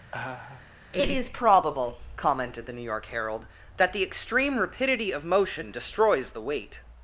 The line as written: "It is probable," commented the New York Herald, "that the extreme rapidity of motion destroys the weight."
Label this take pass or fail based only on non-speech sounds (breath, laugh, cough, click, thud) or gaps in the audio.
fail